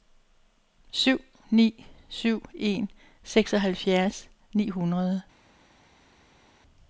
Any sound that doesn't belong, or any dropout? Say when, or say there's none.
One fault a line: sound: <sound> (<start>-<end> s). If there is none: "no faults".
no faults